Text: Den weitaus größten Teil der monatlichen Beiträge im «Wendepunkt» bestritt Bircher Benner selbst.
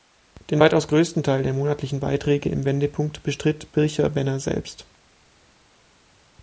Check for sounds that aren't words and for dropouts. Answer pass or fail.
pass